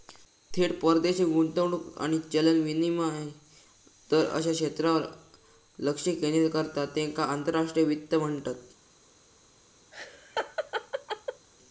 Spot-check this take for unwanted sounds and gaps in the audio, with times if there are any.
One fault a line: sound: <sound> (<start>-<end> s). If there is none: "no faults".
sound: laugh (9.9-11.5 s)